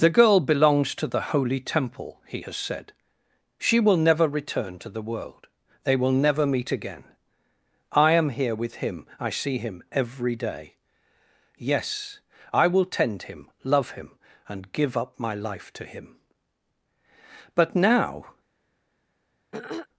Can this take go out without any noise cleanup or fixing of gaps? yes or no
no